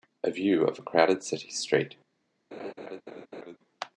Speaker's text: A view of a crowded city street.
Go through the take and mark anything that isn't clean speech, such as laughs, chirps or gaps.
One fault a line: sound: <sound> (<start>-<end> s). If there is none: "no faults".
sound: laugh (2.5-3.6 s)